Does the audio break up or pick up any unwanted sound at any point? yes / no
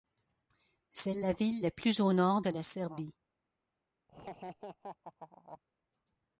yes